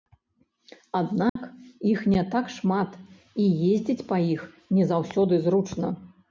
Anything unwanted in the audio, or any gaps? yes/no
yes